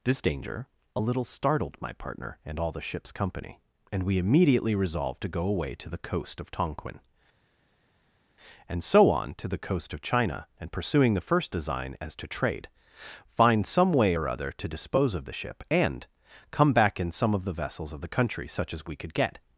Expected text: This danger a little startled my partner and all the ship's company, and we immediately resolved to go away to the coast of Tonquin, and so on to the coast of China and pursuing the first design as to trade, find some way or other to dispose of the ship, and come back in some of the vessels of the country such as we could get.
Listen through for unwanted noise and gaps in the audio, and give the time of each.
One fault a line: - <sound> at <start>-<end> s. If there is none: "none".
none